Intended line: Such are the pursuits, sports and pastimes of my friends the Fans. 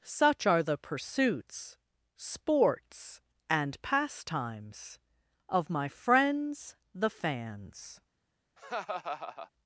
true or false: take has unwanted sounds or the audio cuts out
true